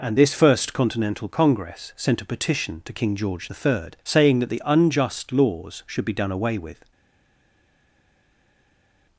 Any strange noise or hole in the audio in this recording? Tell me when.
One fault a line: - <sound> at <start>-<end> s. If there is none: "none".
none